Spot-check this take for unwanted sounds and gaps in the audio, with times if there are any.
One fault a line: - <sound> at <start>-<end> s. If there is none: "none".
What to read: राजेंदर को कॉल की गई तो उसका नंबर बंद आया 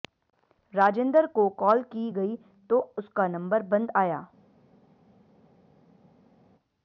none